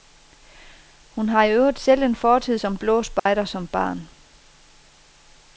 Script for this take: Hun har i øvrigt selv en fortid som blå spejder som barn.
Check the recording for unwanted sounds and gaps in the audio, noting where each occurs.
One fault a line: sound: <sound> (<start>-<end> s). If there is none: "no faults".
sound: dropout (3.2-3.3 s)